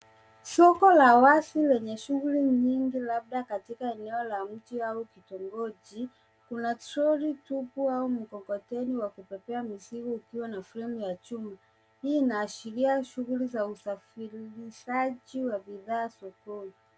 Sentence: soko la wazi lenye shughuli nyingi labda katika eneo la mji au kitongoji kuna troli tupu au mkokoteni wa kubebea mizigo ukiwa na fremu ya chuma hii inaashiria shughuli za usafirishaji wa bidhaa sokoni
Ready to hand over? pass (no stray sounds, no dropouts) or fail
pass